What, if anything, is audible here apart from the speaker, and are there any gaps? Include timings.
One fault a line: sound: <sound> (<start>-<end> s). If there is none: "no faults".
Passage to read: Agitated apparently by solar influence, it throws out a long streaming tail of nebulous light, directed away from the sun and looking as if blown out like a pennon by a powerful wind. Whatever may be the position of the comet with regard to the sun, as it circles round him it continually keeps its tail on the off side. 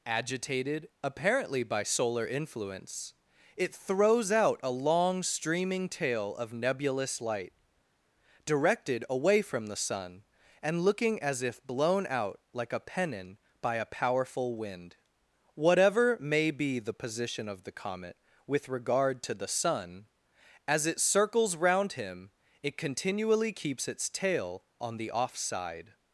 no faults